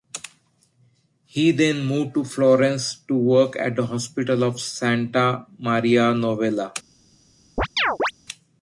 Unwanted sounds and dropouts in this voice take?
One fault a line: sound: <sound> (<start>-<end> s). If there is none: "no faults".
sound: chirp (7.6-8.1 s)